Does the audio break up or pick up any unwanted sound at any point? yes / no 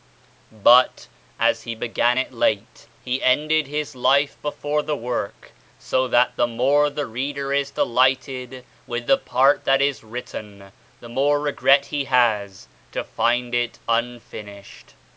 no